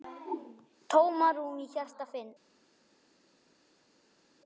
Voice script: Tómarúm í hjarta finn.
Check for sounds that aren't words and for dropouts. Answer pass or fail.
pass